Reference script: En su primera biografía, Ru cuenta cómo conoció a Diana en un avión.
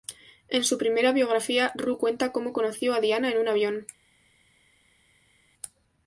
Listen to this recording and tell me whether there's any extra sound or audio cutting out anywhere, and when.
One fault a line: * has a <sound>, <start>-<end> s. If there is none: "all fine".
all fine